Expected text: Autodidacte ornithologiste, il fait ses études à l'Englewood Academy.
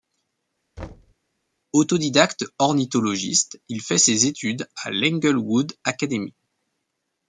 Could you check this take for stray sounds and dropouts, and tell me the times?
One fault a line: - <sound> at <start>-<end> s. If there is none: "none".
- thud at 0.8-1.1 s